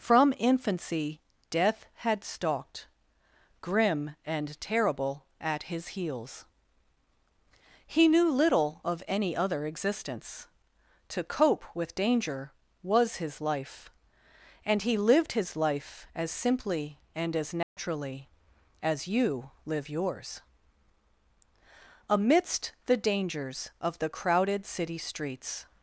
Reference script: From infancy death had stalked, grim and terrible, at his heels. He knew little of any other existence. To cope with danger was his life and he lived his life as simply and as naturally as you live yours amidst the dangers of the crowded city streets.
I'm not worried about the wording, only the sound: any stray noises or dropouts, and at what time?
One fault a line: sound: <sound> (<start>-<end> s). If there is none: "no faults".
sound: dropout (17.6-17.8 s)